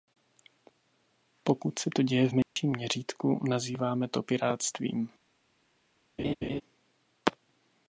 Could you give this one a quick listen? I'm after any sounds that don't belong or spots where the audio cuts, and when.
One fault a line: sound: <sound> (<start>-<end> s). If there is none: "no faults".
sound: dropout (2.4-2.6 s)
sound: laugh (6.2-6.6 s)